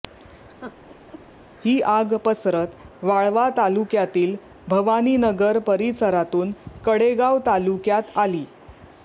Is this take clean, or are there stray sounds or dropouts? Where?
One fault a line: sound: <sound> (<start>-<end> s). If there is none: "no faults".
sound: laugh (0.6-1.2 s)